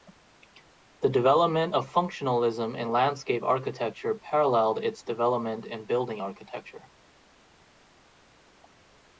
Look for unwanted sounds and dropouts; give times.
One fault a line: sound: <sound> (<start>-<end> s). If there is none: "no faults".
no faults